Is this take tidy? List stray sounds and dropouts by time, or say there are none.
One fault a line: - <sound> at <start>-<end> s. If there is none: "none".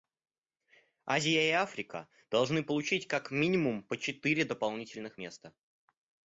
none